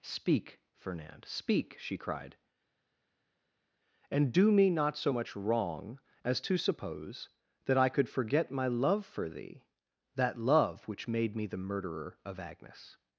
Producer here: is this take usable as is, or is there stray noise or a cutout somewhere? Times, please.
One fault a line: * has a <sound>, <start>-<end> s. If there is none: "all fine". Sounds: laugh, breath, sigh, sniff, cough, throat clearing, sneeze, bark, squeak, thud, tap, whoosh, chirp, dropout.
all fine